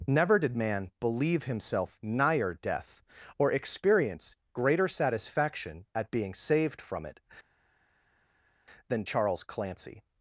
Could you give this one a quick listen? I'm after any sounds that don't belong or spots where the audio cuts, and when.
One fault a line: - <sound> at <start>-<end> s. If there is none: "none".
none